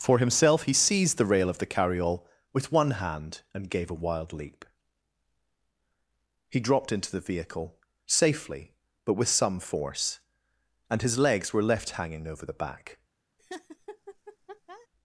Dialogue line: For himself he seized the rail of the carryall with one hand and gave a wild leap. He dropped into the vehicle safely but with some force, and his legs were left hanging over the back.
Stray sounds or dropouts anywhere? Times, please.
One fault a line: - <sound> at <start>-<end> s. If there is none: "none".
- laugh at 13.4-14.9 s